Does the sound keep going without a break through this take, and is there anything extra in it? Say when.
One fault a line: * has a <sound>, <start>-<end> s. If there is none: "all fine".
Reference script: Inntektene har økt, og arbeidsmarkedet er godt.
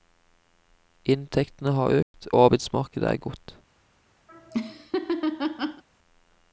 * has a dropout, 2.0-2.1 s
* has a laugh, 4.3-5.8 s